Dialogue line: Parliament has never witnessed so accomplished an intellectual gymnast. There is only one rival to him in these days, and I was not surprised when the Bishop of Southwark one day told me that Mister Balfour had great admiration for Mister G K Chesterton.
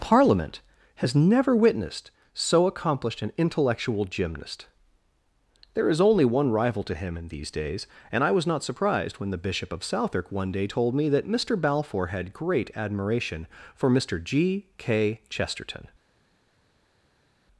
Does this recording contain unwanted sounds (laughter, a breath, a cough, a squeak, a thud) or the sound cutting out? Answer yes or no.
no